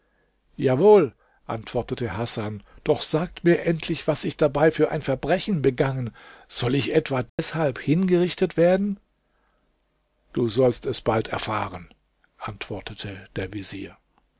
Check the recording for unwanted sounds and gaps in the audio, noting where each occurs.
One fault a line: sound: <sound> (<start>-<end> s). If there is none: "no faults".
sound: dropout (7.3-7.4 s)